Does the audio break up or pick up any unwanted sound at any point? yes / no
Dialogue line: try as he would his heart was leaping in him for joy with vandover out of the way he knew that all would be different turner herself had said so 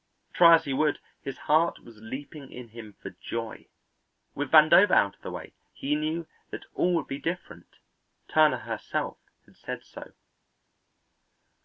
no